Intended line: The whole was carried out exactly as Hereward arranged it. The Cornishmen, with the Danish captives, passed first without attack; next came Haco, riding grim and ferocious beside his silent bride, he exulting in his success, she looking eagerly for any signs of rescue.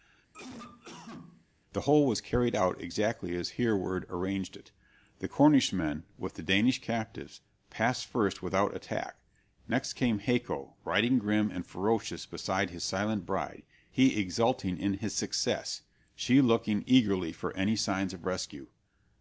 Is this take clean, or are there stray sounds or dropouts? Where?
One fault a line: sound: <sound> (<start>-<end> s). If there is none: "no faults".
sound: cough (0.3-1.5 s)